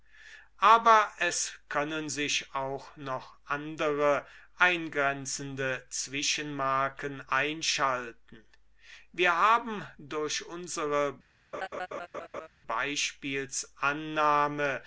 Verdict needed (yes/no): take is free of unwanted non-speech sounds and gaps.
no